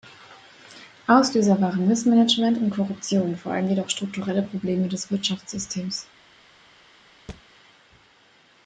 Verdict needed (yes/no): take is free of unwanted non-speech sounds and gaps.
no